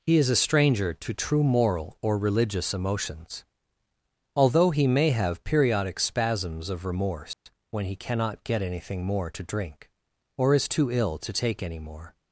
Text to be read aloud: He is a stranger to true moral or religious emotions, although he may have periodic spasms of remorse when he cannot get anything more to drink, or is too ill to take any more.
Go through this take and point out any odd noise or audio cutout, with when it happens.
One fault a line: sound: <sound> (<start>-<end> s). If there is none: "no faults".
sound: dropout (7.3-7.5 s)